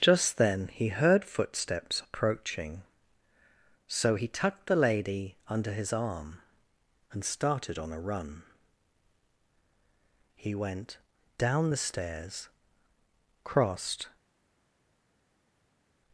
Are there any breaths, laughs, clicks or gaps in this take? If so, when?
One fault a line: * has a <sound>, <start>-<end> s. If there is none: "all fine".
all fine